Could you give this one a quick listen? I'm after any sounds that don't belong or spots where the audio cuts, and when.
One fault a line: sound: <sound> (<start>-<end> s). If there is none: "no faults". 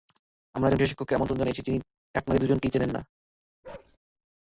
sound: bark (3.6-4.0 s)